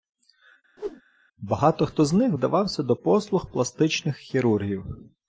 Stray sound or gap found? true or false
true